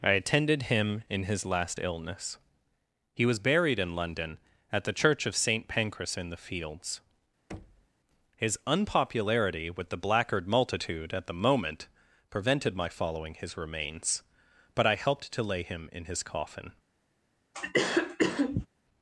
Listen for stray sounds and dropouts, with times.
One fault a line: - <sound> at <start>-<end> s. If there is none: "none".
- thud at 7.5-7.9 s
- cough at 17.5-18.7 s